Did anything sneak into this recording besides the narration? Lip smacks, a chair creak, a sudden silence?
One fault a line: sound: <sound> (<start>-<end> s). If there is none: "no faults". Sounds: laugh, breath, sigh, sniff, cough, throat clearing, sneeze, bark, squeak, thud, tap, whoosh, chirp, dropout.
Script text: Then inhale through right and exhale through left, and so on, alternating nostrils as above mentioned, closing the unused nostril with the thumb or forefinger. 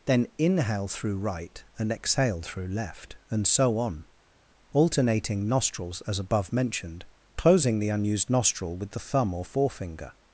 no faults